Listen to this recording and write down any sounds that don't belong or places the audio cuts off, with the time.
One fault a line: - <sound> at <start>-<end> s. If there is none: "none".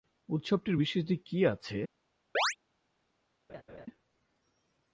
- chirp at 2.3-2.6 s
- laugh at 3.5-3.9 s